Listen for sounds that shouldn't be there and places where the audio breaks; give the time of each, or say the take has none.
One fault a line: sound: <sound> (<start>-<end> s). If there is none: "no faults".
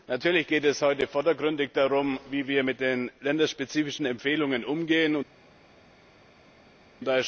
no faults